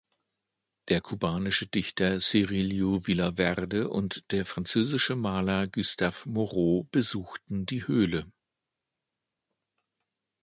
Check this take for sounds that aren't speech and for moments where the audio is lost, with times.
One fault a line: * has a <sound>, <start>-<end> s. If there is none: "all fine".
all fine